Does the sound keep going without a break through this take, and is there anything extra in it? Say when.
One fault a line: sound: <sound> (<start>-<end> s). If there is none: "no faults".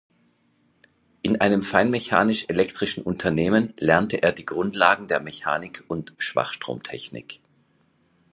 no faults